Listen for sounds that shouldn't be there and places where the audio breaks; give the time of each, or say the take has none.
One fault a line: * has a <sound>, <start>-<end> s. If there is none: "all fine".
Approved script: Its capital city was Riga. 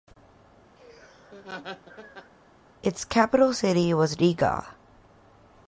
* has a laugh, 0.8-2.3 s